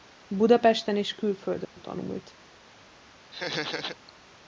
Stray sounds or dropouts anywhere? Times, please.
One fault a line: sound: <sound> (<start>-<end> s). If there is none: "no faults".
sound: dropout (1.6-1.8 s)
sound: laugh (3.3-4.0 s)